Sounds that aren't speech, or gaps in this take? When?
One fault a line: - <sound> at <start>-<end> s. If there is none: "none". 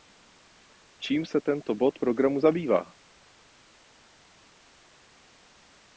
none